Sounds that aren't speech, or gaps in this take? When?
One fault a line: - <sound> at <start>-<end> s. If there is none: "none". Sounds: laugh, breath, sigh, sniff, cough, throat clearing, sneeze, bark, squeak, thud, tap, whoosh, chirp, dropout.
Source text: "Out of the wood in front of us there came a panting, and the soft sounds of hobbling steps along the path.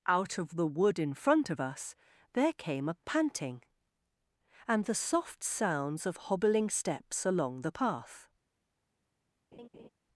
- laugh at 9.5-9.9 s